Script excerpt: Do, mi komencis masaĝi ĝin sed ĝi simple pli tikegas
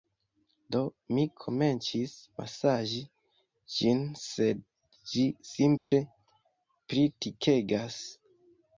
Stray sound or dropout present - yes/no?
yes